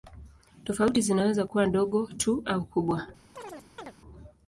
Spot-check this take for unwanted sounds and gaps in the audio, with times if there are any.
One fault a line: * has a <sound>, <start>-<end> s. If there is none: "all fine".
* has a chirp, 3.4-3.9 s